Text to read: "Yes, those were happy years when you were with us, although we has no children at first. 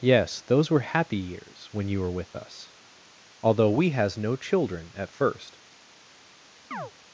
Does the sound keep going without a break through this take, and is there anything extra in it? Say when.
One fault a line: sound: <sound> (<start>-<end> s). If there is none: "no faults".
sound: chirp (6.7-6.9 s)